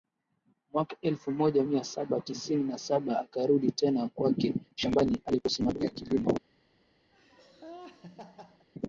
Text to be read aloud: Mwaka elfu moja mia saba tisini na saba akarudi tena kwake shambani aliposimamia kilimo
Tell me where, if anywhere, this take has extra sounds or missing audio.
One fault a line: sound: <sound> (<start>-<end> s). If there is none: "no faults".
sound: laugh (7.1-8.7 s)